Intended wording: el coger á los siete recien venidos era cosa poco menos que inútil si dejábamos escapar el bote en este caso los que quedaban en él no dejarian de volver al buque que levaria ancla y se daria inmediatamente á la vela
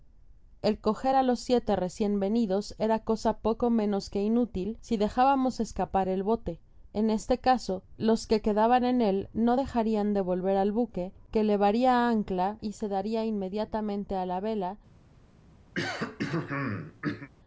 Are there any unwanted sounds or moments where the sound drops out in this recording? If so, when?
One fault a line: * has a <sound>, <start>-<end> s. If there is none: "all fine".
* has a throat clearing, 15.7-17.3 s